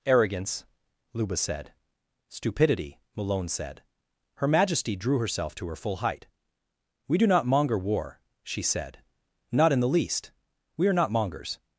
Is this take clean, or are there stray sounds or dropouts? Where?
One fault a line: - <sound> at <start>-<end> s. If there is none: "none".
none